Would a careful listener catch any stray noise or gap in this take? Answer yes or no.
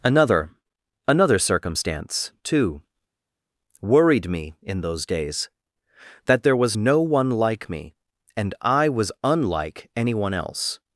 no